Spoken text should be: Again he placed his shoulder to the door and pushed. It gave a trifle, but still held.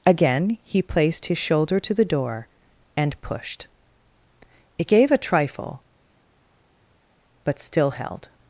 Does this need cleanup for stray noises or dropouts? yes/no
no